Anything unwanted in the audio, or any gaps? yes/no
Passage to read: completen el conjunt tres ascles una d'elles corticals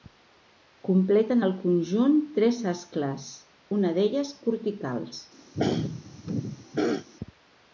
yes